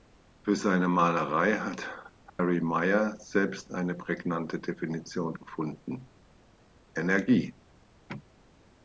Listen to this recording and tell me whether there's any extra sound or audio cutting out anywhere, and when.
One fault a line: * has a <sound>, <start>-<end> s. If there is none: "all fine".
* has a dropout, 2.3-2.4 s